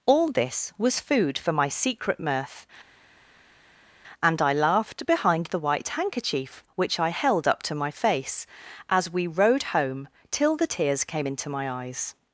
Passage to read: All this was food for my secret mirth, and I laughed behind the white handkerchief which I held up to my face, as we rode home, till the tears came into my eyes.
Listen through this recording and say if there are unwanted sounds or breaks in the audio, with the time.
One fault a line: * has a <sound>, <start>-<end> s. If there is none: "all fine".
all fine